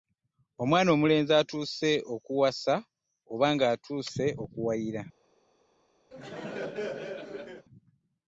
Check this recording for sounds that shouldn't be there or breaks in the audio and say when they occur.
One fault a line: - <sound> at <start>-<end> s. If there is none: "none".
- laugh at 6.1-7.7 s